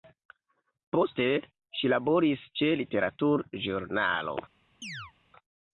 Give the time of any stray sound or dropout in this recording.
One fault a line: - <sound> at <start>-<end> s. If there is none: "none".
- chirp at 4.8-5.1 s